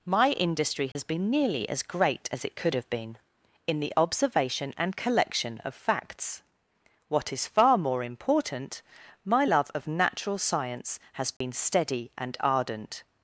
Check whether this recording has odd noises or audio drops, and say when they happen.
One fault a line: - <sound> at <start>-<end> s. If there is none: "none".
- dropout at 0.9-1.0 s
- dropout at 11.4-11.4 s